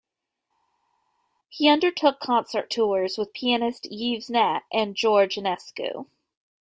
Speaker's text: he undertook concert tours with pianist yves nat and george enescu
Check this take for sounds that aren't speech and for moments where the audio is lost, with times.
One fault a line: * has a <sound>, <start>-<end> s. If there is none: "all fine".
all fine